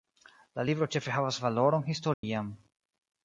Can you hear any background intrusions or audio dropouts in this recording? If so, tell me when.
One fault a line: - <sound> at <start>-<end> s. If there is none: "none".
- dropout at 2.1-2.2 s